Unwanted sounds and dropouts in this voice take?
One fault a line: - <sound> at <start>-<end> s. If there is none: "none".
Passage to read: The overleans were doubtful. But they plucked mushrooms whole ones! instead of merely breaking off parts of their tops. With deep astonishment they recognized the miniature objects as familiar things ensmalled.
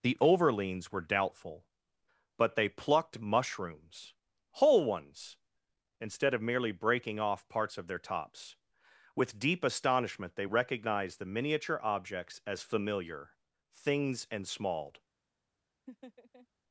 - laugh at 15.9-16.5 s